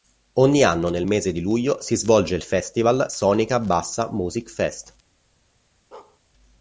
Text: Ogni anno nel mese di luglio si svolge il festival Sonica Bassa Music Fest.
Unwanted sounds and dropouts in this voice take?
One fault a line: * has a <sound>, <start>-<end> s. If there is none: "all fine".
* has a bark, 5.9-6.2 s